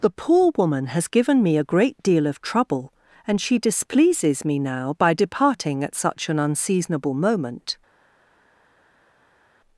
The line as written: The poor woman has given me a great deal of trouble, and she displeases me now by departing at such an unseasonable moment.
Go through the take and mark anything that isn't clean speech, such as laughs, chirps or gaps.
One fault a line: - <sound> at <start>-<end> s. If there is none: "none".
none